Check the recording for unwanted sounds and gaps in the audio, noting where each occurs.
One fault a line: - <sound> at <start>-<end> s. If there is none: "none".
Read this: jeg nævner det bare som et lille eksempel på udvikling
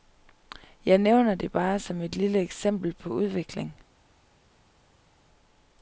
none